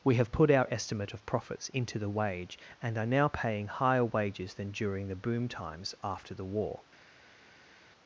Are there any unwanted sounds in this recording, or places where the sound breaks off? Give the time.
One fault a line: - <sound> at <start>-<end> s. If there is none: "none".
none